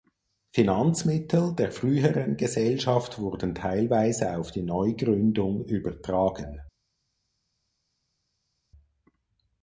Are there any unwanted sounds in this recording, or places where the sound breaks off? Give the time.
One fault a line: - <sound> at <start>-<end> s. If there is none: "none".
none